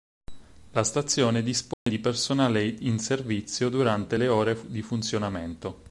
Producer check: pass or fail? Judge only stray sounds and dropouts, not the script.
fail